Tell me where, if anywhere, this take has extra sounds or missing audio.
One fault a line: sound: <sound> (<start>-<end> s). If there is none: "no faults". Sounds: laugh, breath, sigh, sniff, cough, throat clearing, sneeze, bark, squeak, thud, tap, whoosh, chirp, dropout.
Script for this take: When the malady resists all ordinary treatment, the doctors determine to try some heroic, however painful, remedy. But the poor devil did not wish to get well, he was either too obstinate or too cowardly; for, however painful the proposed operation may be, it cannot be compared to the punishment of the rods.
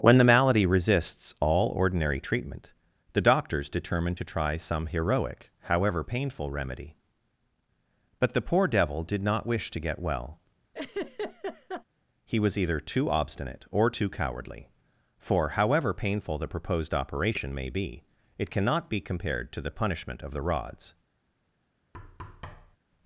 sound: laugh (10.7-11.8 s)
sound: thud (21.9-22.8 s)